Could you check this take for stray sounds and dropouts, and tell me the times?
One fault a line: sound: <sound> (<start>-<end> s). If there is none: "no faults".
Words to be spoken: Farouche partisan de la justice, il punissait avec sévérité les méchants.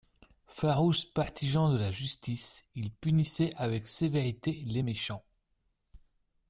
no faults